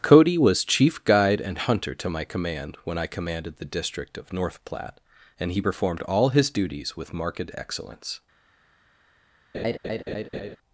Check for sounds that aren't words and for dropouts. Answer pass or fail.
fail